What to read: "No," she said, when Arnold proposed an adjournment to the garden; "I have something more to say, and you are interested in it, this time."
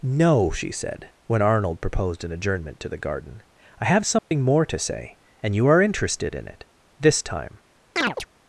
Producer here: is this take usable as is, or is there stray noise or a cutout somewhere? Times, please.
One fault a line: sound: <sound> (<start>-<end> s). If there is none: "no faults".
sound: dropout (4.2-4.3 s)
sound: chirp (8.0-8.3 s)